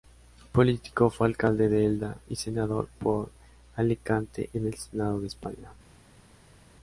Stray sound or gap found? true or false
false